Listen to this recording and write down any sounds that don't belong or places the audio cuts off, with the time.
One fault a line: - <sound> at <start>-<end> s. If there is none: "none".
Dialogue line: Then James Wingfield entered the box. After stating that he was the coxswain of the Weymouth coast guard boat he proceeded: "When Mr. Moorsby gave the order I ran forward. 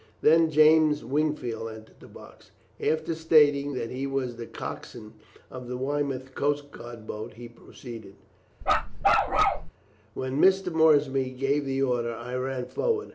- bark at 8.6-9.7 s